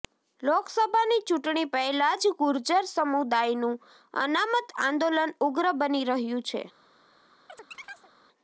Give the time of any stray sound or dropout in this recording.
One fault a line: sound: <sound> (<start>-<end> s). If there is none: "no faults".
sound: chirp (7.5-8.1 s)